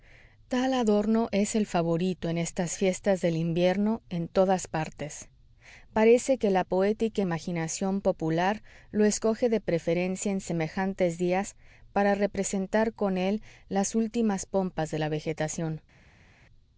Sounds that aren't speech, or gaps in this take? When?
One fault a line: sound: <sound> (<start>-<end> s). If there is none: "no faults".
no faults